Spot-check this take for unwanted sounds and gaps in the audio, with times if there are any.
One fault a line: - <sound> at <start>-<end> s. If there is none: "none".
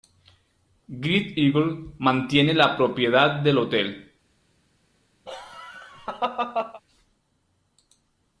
- laugh at 5.3-6.8 s